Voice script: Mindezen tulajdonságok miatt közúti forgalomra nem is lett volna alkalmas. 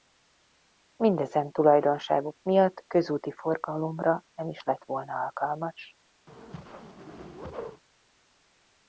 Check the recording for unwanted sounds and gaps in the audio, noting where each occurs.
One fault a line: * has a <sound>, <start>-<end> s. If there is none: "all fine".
* has a whoosh, 6.3-7.8 s